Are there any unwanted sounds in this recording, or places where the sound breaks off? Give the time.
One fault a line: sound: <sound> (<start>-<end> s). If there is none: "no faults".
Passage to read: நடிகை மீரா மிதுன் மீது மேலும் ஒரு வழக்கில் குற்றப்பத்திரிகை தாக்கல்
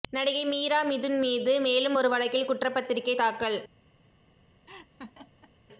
sound: laugh (4.7-5.5 s)